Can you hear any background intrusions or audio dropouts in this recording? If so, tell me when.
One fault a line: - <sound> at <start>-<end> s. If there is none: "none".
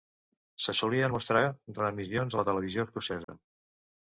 - dropout at 3.2-3.3 s